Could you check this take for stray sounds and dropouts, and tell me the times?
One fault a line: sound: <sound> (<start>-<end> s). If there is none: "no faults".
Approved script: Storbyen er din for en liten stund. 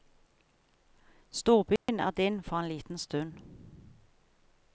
sound: dropout (1.8-1.9 s)